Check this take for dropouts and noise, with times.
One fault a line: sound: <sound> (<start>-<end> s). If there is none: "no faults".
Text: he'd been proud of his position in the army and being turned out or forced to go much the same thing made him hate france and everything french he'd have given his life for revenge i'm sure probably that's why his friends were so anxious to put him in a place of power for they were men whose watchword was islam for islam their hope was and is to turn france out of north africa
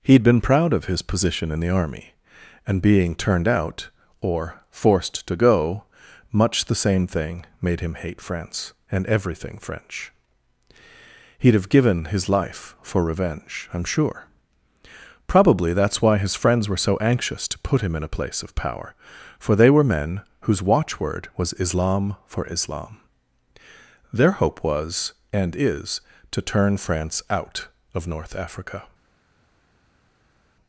no faults